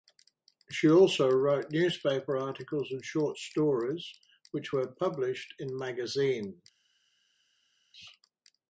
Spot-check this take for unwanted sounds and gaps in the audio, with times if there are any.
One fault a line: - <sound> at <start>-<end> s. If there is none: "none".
none